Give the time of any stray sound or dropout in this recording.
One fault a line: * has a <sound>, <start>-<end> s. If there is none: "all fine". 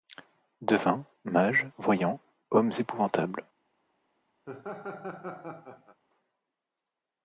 * has a laugh, 4.5-6.0 s